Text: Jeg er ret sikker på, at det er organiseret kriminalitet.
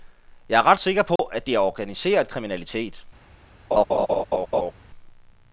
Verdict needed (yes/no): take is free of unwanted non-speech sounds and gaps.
no